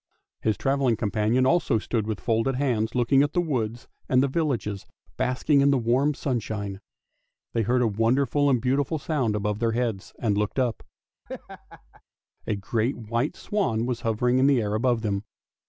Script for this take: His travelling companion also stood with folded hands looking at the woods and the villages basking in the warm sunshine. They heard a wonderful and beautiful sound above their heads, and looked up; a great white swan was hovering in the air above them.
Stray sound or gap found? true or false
true